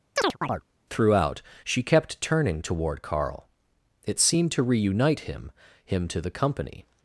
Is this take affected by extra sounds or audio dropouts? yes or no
yes